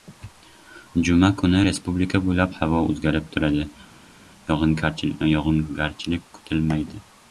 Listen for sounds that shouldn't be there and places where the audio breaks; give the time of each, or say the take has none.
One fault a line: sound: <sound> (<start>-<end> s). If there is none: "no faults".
no faults